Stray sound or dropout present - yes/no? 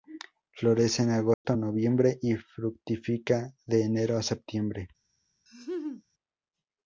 yes